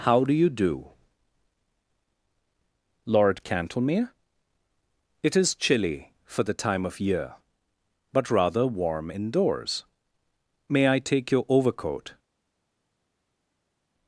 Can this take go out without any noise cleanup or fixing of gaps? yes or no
yes